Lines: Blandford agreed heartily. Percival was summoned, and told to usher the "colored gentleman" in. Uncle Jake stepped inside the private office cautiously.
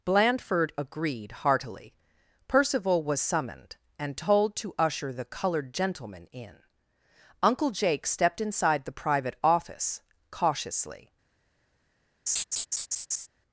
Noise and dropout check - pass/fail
fail